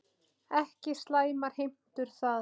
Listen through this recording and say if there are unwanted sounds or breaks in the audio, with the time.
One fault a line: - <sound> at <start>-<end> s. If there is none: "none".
none